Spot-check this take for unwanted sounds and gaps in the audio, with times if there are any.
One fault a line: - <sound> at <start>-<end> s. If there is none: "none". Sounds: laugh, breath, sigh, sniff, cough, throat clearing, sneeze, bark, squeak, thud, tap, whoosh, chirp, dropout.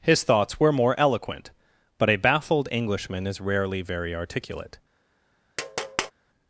- tap at 5.6-6.1 s